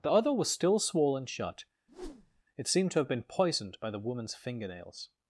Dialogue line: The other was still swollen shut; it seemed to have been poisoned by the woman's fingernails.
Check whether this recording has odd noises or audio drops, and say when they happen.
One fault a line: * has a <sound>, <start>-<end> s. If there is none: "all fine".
* has a whoosh, 1.9-2.4 s